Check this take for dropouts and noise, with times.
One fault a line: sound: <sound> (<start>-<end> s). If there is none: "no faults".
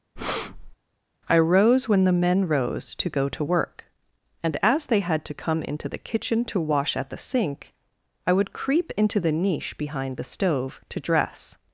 sound: breath (0.2-0.8 s)